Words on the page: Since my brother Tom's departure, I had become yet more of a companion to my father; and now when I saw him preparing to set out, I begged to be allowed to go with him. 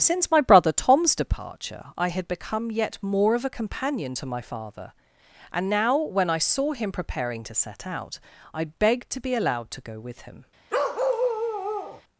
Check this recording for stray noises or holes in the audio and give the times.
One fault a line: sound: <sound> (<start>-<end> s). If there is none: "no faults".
sound: bark (10.7-12.0 s)